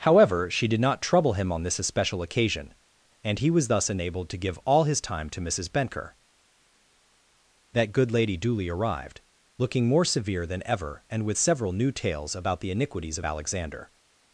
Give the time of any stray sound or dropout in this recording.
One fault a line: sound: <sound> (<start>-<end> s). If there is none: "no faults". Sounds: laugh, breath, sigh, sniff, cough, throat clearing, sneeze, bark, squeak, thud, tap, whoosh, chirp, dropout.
no faults